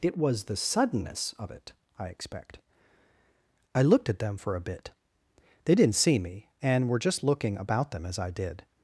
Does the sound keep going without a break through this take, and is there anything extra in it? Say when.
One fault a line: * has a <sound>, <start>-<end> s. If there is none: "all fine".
all fine